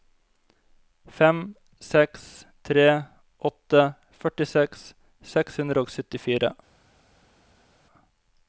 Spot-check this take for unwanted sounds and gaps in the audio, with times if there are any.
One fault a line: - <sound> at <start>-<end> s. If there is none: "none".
none